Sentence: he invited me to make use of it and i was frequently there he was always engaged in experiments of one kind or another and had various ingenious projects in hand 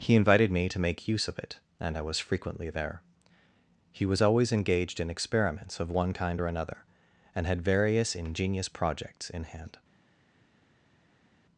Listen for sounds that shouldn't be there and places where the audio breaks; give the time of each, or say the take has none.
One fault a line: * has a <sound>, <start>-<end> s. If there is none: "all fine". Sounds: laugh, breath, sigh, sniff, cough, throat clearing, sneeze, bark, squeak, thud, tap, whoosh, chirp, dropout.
all fine